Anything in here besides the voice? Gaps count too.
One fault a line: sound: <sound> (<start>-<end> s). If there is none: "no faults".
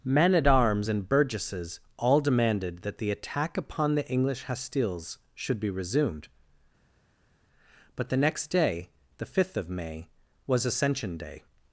no faults